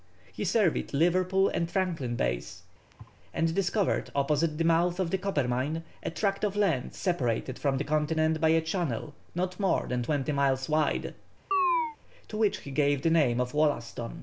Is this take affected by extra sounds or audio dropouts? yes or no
yes